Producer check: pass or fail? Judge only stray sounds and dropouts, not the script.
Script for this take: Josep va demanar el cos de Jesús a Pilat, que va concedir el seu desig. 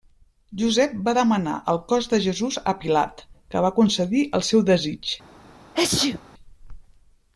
fail